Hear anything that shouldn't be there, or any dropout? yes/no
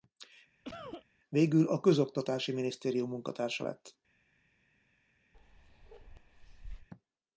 yes